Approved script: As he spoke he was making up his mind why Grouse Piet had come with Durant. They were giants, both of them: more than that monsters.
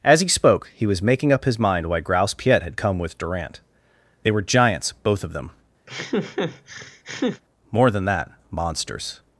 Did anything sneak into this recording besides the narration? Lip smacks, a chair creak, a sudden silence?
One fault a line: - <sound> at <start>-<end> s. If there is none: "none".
- laugh at 5.9-7.4 s